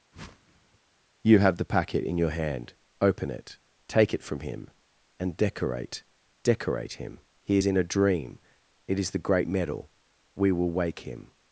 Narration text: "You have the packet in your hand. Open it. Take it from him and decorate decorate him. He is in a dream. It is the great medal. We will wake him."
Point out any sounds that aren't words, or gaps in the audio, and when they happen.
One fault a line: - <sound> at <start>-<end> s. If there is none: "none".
- whoosh at 0.1-0.8 s